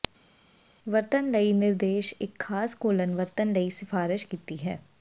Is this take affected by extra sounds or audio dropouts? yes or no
no